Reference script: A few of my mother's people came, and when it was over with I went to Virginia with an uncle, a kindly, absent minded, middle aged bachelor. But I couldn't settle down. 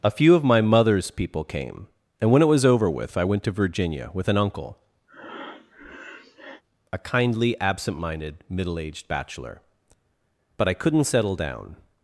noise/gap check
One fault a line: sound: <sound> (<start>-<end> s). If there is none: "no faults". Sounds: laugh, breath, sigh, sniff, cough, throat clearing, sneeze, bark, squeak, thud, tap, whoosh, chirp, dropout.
sound: breath (5.1-6.6 s)